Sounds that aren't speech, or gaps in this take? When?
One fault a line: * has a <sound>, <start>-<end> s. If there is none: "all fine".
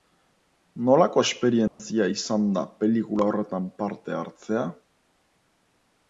* has a dropout, 1.7-1.8 s